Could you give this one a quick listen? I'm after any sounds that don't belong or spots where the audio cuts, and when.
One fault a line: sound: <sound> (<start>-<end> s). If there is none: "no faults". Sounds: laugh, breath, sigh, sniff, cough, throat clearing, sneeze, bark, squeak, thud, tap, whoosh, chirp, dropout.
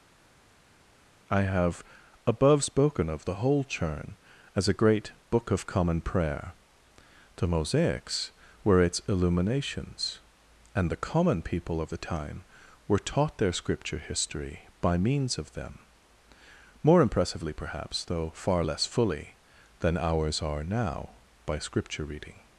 no faults